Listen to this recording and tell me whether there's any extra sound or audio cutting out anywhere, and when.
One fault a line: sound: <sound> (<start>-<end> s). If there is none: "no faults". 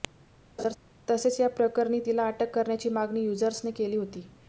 sound: laugh (0.6-0.8 s)